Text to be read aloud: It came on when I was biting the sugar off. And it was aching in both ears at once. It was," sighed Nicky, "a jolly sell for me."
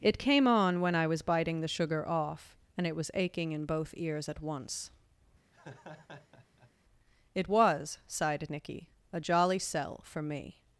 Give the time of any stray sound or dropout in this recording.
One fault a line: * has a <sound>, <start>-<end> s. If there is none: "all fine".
* has a laugh, 5.5-6.7 s